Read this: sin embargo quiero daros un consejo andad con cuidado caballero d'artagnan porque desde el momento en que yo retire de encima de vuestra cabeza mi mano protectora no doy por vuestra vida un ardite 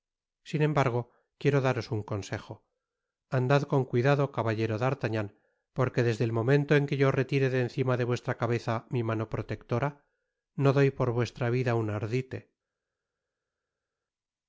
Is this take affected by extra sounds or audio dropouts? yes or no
no